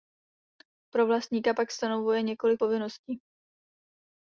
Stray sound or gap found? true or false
false